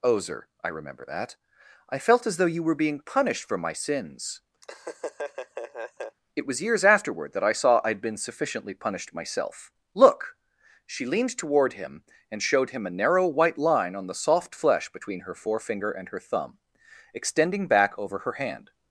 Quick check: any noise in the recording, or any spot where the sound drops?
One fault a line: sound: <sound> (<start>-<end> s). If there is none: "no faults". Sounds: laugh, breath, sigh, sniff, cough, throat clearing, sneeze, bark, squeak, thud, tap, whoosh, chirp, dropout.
sound: laugh (4.6-6.2 s)